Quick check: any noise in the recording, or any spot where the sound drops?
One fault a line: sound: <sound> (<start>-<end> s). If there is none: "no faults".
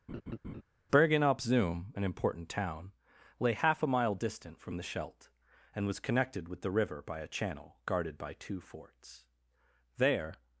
sound: laugh (0.1-0.6 s)